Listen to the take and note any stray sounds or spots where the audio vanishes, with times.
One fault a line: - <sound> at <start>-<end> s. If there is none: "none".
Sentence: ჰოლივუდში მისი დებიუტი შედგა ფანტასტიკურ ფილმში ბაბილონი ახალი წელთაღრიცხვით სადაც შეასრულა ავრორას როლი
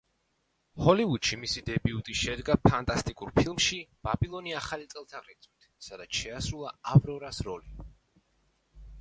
none